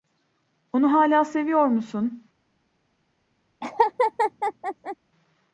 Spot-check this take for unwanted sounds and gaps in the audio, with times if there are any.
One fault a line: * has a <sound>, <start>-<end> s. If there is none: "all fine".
* has a laugh, 3.6-5.0 s